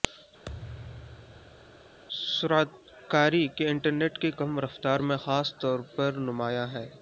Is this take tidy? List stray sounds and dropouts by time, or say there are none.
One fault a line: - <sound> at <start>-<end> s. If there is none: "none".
- thud at 0.5-2.0 s